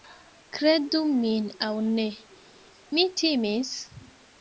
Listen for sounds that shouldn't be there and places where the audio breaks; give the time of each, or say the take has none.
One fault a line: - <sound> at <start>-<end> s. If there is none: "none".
none